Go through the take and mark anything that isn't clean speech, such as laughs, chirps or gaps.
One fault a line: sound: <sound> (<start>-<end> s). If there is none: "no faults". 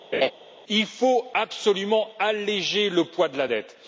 sound: laugh (0.1-0.3 s)